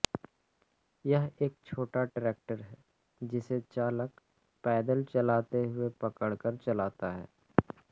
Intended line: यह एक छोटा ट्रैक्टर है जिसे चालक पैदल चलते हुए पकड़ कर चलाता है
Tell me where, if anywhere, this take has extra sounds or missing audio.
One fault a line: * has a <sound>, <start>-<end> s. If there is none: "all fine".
all fine